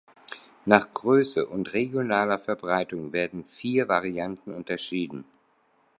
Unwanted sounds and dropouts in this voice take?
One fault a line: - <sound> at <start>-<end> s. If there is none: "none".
none